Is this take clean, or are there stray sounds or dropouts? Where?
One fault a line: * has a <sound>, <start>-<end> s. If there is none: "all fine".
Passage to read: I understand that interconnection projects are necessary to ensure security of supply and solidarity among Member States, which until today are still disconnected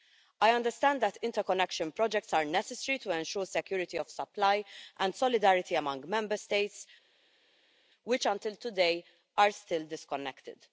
all fine